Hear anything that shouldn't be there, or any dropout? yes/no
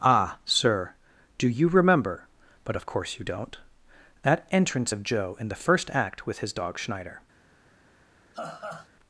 yes